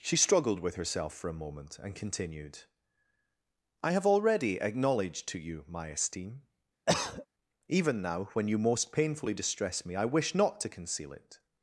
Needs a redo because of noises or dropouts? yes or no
yes